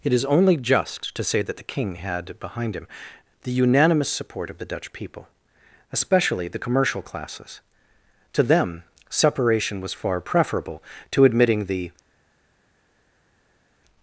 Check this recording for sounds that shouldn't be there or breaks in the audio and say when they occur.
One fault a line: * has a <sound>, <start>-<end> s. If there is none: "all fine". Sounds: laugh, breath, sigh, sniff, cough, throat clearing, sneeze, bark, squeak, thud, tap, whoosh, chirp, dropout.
all fine